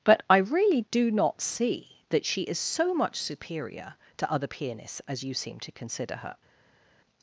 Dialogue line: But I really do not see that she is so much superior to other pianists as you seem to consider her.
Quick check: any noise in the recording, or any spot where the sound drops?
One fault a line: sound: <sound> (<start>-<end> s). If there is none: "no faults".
no faults